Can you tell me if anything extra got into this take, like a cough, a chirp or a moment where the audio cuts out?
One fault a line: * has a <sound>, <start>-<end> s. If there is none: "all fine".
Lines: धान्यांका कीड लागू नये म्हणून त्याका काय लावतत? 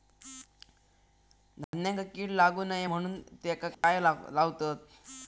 * has a dropout, 1.6-1.7 s
* has a dropout, 3.7-3.8 s